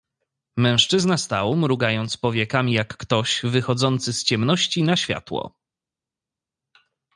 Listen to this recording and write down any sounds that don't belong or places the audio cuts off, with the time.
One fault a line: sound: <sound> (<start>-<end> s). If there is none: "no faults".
no faults